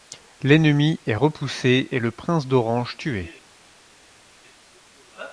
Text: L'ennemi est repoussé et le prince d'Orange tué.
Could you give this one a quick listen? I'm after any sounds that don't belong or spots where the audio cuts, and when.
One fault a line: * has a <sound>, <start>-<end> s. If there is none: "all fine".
all fine